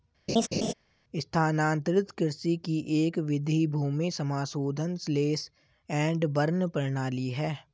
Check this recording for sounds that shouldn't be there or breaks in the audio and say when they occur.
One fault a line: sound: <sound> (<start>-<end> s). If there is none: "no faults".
sound: laugh (0.3-0.7 s)